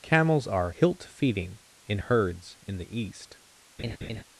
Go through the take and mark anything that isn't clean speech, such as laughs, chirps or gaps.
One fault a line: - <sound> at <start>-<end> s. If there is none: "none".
- laugh at 3.8-4.2 s